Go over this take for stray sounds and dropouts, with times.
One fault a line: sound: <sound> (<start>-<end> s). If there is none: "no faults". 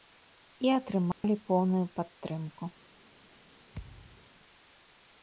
sound: dropout (1.1-1.2 s)
sound: thud (3.7-4.3 s)